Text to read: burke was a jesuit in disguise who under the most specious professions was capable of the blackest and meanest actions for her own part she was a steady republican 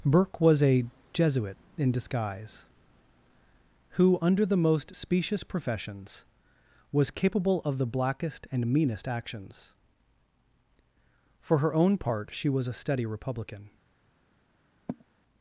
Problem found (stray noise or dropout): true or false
true